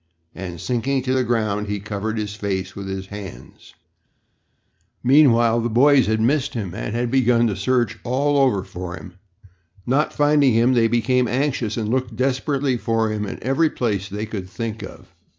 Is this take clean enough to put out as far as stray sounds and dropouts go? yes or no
yes